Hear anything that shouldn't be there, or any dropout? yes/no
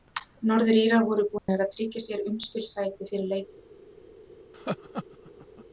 yes